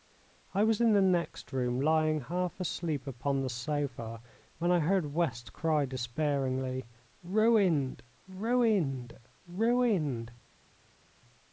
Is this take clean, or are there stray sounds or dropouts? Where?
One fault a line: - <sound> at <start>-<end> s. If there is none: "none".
none